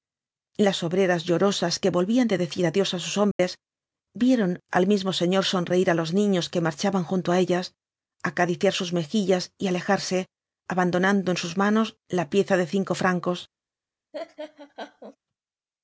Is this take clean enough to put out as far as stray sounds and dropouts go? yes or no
no